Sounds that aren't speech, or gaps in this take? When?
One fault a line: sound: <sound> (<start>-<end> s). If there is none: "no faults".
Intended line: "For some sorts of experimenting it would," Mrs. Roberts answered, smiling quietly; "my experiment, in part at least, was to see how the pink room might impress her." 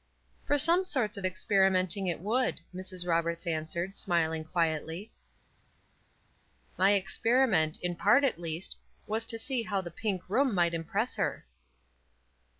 no faults